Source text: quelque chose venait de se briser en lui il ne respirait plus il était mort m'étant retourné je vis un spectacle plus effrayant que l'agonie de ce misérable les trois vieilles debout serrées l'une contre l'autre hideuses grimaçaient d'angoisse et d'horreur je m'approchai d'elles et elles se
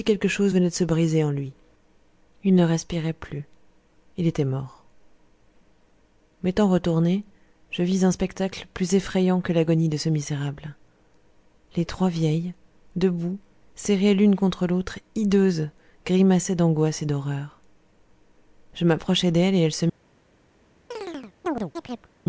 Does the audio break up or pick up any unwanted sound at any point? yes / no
yes